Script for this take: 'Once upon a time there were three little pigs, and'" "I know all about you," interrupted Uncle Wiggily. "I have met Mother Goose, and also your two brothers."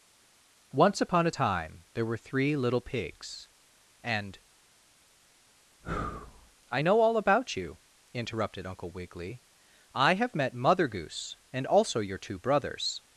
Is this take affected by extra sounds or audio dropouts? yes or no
no